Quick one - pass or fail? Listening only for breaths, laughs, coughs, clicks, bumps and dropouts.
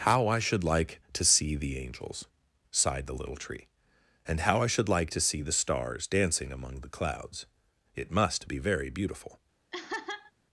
fail